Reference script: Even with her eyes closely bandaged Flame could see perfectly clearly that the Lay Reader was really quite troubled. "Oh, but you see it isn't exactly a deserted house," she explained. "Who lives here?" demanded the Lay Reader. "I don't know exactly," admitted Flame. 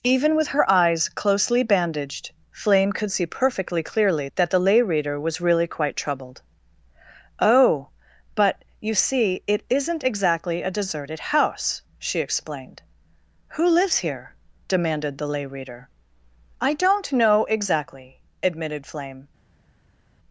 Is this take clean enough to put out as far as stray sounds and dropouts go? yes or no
yes